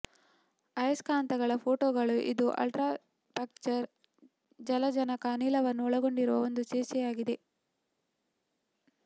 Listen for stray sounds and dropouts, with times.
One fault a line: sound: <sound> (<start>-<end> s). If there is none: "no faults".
no faults